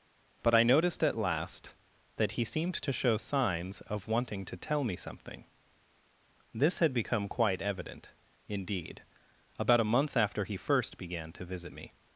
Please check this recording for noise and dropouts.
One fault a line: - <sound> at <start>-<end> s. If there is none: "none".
none